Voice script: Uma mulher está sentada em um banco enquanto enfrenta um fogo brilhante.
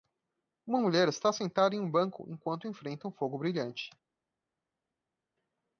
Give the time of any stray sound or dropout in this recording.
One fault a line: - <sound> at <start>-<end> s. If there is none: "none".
none